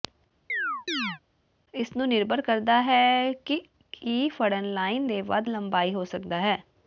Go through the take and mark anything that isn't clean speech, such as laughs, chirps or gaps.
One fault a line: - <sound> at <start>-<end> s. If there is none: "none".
- chirp at 0.5-1.2 s